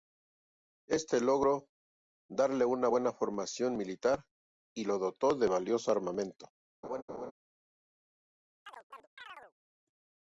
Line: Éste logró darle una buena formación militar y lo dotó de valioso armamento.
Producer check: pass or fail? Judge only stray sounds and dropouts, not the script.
fail